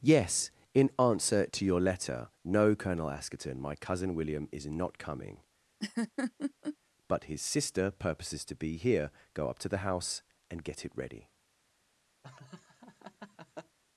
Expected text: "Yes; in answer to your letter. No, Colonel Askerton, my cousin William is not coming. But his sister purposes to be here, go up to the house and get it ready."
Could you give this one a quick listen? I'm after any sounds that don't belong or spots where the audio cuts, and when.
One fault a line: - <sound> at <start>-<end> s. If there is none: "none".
- laugh at 5.8-6.8 s
- laugh at 12.2-13.8 s